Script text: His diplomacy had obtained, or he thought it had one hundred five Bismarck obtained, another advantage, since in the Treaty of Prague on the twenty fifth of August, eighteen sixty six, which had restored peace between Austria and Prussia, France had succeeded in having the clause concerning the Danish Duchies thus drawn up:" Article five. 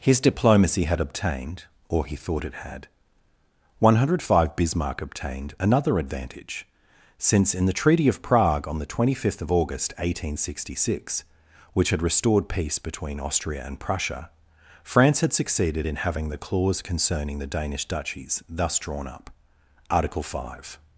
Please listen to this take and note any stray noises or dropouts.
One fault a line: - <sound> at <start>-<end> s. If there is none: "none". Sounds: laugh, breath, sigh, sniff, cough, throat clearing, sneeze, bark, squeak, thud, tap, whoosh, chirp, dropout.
none